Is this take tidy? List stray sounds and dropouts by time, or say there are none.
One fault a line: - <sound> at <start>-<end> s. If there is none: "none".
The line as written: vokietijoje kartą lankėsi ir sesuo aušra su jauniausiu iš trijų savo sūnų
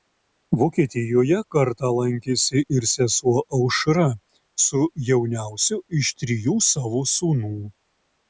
none